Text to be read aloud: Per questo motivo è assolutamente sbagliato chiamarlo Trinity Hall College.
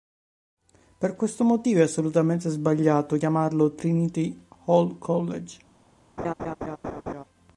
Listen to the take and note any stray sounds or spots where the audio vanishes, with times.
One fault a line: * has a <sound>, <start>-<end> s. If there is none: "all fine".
* has a laugh, 6.2-7.2 s